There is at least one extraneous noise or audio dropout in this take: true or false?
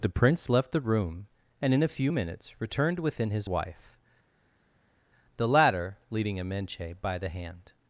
false